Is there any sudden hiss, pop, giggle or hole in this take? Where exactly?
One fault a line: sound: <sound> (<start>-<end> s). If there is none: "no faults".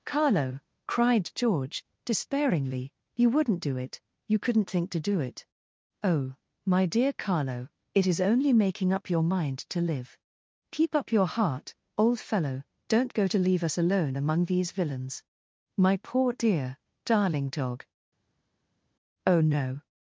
no faults